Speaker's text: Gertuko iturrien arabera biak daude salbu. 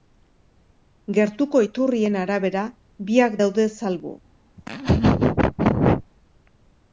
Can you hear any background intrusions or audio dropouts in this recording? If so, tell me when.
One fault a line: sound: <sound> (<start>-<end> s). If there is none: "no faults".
sound: laugh (4.6-6.1 s)